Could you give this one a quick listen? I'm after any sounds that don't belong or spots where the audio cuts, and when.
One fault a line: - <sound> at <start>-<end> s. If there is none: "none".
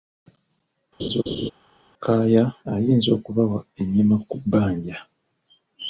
- laugh at 1.0-1.5 s